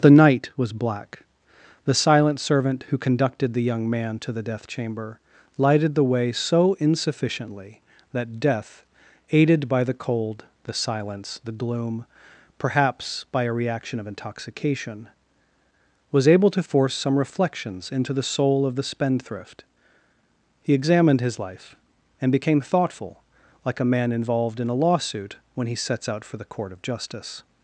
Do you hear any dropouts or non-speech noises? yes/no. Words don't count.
no